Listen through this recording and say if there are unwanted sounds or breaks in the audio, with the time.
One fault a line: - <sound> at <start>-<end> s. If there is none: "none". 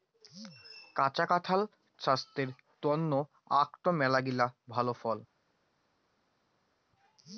none